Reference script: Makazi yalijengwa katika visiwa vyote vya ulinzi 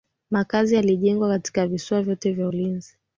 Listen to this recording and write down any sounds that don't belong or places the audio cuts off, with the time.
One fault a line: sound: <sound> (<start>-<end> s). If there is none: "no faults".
no faults